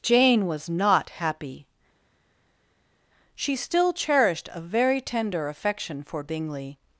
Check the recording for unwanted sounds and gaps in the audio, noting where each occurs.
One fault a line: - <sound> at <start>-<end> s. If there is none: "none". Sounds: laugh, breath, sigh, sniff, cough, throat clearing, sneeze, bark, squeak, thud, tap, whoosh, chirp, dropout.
none